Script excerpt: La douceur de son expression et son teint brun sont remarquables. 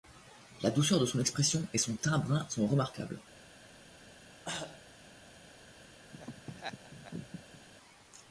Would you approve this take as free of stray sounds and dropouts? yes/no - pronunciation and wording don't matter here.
no